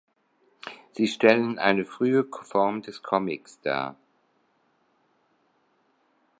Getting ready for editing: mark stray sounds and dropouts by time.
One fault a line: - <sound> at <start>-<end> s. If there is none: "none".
none